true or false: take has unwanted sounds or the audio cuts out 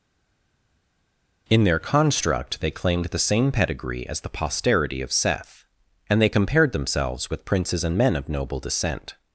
false